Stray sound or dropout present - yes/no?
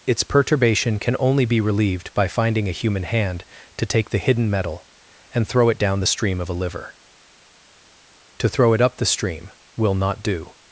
no